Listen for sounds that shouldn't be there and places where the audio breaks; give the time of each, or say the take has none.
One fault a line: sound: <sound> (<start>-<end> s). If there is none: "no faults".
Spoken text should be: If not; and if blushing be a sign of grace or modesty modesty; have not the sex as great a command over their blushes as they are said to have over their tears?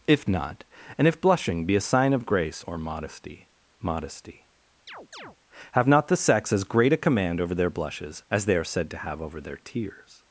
sound: chirp (4.9-5.4 s)